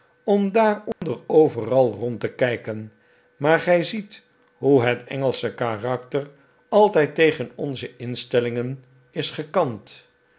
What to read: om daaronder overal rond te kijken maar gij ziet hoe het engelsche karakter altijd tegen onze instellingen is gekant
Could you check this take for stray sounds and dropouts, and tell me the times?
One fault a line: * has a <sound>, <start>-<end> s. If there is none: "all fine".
* has a dropout, 0.9-1.0 s